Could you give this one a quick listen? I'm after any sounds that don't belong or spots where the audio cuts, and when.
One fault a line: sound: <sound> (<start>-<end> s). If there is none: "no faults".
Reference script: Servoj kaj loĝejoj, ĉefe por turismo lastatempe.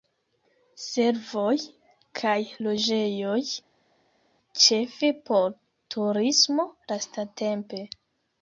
no faults